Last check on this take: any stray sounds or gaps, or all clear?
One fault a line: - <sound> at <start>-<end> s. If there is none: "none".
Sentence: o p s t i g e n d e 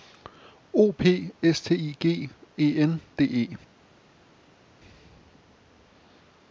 none